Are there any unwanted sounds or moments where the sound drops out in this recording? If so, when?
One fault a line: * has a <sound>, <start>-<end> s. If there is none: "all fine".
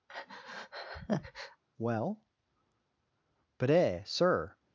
* has a breath, 0.1-1.6 s